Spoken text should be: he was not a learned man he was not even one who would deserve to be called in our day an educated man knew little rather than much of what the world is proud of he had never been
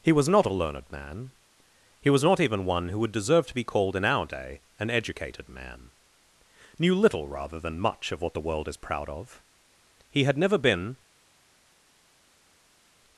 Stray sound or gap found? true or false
false